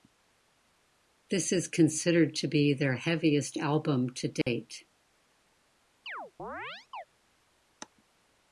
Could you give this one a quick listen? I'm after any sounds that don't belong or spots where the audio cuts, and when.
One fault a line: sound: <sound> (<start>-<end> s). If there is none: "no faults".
sound: dropout (4.4-4.5 s)
sound: chirp (6.1-7.0 s)